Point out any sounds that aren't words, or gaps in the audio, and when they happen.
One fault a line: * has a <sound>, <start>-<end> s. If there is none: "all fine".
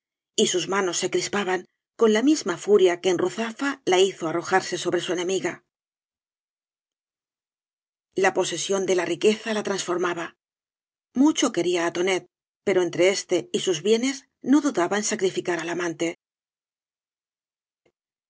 all fine